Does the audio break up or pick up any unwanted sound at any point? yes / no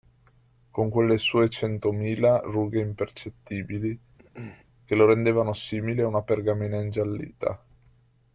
yes